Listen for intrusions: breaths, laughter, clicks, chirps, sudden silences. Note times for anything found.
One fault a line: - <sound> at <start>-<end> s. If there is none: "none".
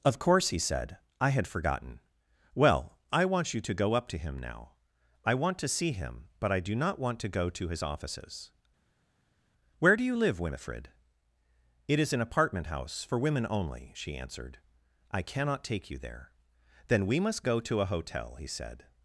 none